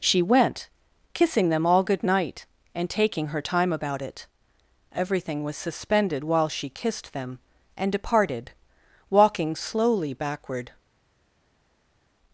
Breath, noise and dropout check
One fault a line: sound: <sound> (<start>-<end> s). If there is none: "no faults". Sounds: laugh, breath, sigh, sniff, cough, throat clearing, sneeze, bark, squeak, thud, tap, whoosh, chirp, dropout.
no faults